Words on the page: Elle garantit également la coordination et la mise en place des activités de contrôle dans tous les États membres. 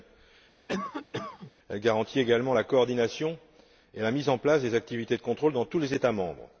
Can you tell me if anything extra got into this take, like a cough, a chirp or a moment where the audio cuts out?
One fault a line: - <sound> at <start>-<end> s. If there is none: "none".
- cough at 0.7-1.5 s